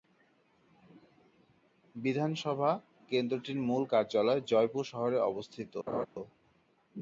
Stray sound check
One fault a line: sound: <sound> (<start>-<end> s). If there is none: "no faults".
sound: laugh (5.9-6.1 s)